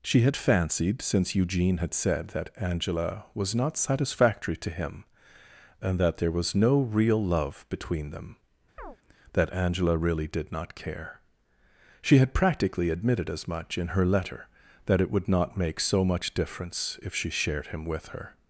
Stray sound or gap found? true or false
true